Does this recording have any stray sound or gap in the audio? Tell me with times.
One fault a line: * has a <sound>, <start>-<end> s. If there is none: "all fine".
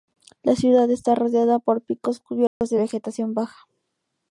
* has a dropout, 2.5-2.6 s